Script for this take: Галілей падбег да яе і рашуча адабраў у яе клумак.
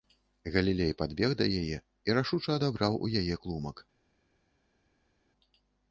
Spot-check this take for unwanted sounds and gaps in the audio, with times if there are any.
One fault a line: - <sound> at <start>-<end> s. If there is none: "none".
none